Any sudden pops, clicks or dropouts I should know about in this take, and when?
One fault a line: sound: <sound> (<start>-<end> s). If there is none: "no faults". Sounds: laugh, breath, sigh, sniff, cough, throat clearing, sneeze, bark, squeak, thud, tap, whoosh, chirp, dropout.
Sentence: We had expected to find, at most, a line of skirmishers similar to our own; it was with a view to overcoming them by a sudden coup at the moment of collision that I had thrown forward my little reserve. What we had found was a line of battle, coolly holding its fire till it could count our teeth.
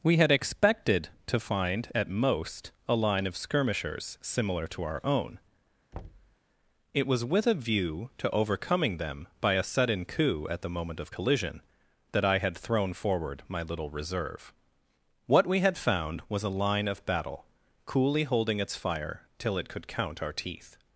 sound: thud (5.9-6.4 s)